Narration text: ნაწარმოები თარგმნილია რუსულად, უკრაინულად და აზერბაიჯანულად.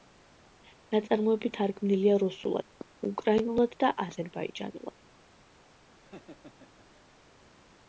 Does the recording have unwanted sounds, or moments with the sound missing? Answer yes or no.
yes